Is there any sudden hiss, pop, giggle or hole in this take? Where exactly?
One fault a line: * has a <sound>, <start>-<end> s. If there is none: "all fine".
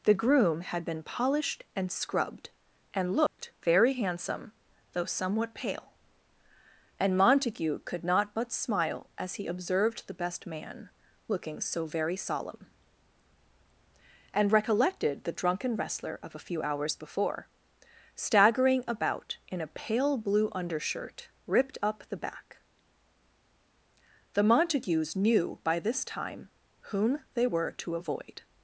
* has a dropout, 3.3-3.4 s